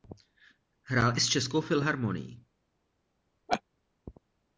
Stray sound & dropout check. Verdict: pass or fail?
fail